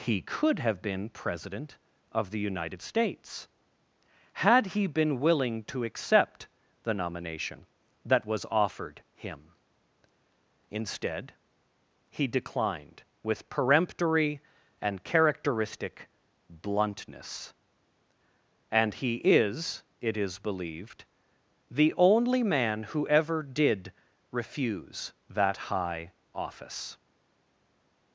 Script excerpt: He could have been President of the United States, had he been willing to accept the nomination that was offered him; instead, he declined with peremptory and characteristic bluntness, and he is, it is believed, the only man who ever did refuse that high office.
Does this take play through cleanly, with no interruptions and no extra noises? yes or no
yes